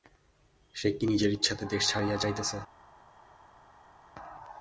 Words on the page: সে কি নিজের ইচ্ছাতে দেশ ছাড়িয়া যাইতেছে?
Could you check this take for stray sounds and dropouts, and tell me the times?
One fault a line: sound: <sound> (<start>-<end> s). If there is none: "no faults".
no faults